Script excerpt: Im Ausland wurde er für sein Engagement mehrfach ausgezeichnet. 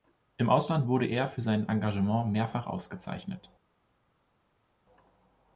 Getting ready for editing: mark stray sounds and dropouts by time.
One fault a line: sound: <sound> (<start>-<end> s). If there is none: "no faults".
no faults